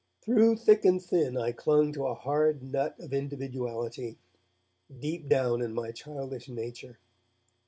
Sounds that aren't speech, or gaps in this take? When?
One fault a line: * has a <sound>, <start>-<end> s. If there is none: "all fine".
all fine